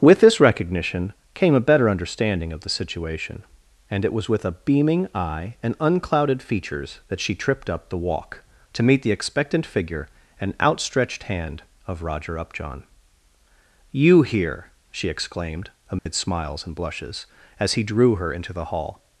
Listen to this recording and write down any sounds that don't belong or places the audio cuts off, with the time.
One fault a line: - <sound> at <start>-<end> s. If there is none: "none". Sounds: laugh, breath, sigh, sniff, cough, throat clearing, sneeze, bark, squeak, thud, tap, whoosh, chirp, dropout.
- dropout at 16.0-16.1 s